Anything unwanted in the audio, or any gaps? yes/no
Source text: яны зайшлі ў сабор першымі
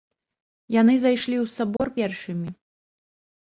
yes